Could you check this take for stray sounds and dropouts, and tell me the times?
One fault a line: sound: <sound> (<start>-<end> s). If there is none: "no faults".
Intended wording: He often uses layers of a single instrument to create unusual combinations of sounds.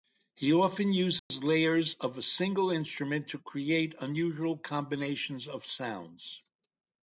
sound: dropout (1.2-1.3 s)